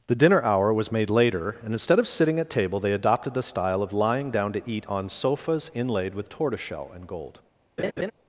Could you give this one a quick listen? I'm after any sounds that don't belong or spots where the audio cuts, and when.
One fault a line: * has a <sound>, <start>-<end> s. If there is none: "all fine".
* has a laugh, 7.8-8.1 s